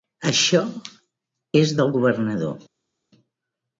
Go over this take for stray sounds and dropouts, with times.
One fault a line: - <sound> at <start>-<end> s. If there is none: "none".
none